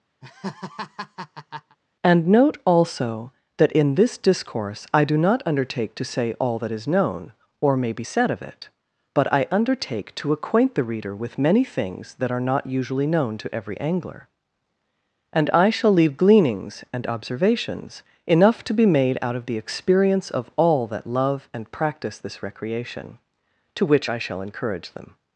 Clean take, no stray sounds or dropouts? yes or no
no